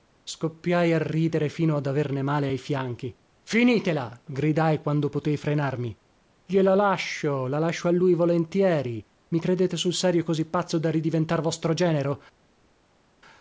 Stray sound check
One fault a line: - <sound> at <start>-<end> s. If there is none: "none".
none